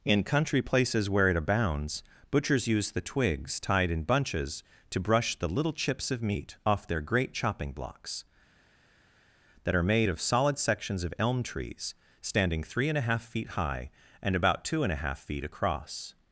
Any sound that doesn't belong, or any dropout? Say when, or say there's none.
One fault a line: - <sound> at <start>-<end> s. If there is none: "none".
none